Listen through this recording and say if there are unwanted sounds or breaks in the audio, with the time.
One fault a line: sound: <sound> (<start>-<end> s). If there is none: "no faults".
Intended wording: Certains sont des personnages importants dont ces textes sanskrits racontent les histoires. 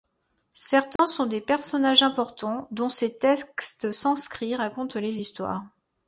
sound: dropout (1.0-1.0 s)